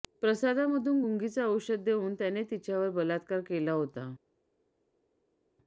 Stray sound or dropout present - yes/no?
no